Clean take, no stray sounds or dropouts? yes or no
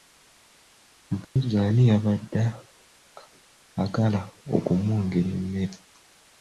no